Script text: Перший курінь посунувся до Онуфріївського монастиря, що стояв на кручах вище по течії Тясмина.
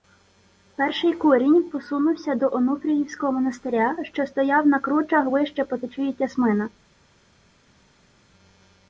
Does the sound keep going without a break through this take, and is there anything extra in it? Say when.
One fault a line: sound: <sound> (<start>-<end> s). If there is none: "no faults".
no faults